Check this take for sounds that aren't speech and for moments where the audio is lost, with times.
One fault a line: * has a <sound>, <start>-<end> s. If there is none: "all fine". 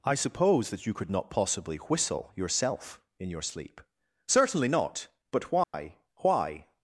* has a dropout, 5.6-5.7 s